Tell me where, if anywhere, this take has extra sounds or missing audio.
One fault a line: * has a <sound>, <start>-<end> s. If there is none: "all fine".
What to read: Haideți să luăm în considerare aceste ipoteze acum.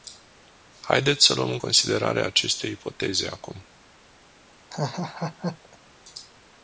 * has a laugh, 4.7-5.8 s